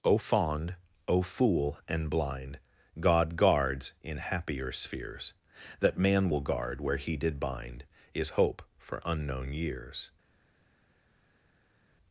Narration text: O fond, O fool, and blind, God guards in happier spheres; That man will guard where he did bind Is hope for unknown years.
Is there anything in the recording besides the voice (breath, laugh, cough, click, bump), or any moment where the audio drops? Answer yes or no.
no